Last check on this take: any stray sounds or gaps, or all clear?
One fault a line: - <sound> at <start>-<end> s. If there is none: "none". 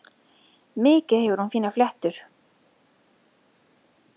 none